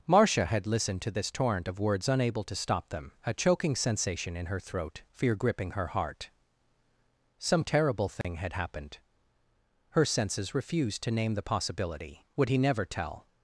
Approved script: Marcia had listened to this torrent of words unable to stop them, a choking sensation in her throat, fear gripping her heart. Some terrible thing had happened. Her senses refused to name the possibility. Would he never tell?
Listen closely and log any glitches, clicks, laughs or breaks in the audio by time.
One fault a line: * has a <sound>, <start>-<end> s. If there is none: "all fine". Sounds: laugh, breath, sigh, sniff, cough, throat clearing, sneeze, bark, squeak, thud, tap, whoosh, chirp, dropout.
* has a dropout, 8.2-8.2 s